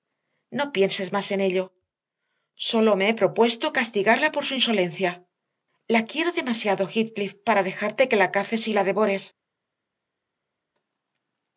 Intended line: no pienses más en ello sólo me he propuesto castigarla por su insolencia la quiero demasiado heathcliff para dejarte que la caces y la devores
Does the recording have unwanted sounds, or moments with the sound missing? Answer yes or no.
no